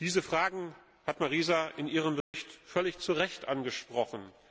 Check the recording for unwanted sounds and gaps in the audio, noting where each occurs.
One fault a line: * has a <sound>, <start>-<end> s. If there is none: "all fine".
* has a dropout, 2.2-2.3 s